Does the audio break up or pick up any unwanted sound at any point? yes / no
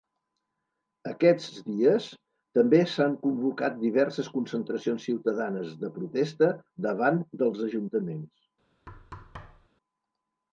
yes